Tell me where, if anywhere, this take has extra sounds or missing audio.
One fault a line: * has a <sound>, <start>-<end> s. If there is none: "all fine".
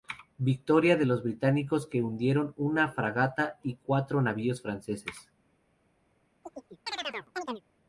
* has a chirp, 6.4-7.6 s